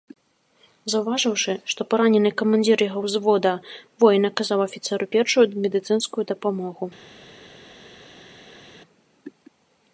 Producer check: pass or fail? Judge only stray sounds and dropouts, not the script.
pass